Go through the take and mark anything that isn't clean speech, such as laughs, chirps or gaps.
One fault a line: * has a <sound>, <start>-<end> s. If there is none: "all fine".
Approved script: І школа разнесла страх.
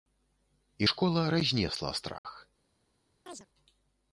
* has a dropout, 2.2-2.2 s
* has a chirp, 3.3-3.5 s